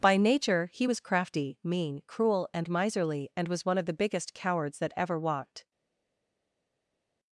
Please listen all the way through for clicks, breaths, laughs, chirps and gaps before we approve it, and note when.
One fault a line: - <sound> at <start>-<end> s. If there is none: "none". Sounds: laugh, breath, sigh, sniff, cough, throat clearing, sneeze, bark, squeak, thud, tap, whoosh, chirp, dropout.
none